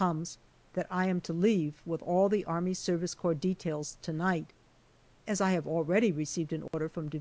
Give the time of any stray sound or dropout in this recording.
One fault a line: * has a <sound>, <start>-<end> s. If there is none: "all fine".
* has a dropout, 6.7-6.7 s